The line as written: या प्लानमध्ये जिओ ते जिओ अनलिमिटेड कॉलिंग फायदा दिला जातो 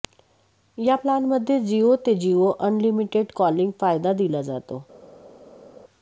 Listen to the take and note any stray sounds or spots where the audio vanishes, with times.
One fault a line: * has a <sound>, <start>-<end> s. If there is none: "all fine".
all fine